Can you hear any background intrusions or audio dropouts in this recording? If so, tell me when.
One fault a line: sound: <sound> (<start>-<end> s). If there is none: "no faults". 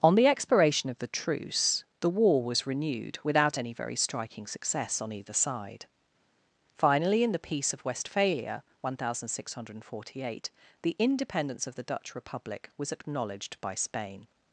no faults